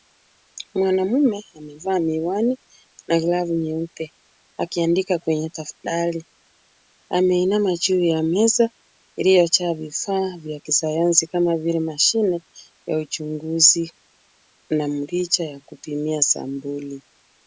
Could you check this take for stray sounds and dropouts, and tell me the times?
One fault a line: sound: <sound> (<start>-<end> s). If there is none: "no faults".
no faults